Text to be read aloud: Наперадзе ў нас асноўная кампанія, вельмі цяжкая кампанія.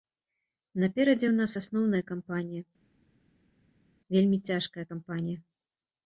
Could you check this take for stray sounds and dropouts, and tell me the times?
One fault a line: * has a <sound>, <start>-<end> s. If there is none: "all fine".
all fine